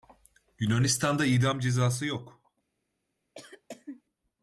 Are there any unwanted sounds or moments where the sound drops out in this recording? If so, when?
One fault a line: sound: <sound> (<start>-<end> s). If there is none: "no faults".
sound: cough (3.3-4.0 s)